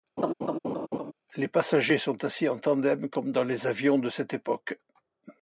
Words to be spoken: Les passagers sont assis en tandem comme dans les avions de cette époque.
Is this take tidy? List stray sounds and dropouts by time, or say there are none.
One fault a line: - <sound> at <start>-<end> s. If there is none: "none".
- laugh at 0.2-1.1 s